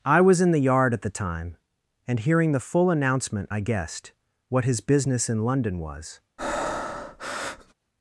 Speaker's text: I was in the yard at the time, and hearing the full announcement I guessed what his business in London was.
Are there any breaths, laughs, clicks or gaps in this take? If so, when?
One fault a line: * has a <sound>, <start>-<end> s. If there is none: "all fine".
* has a breath, 6.4-7.7 s